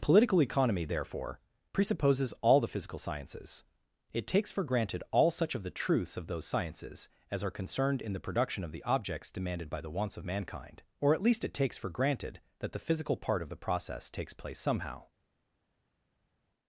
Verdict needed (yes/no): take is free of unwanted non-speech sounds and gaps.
yes